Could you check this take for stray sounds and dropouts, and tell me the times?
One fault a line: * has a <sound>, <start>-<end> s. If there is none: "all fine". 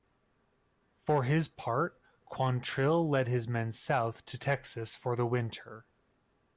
all fine